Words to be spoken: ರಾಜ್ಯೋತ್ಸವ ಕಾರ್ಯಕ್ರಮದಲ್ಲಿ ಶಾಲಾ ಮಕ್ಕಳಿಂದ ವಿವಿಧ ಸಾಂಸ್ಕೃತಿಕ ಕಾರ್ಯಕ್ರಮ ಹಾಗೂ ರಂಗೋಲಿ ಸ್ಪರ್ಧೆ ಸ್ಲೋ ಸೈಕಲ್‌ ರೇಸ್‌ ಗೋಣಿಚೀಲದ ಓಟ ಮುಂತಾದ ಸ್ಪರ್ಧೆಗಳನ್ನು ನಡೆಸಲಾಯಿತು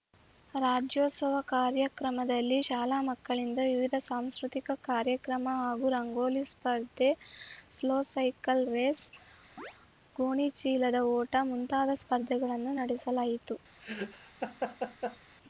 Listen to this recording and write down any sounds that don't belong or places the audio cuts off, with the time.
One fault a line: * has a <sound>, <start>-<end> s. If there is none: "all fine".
* has a chirp, 9.6-9.7 s
* has a laugh, 13.8-15.2 s